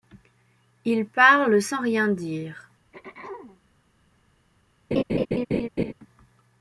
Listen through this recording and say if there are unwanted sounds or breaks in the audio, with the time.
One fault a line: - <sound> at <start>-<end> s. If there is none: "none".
- throat clearing at 2.9-3.6 s
- laugh at 4.9-5.9 s